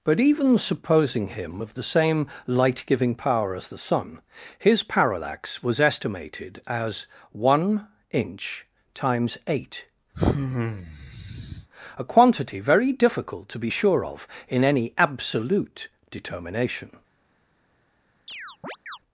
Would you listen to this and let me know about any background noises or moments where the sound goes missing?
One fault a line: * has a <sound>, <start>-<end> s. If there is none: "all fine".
* has a sigh, 10.1-11.7 s
* has a chirp, 18.3-19.0 s